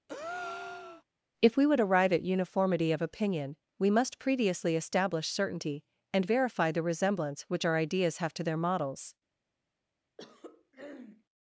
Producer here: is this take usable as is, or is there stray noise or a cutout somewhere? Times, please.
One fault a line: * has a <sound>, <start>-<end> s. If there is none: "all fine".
* has a breath, 0.1-1.0 s
* has a throat clearing, 10.2-11.2 s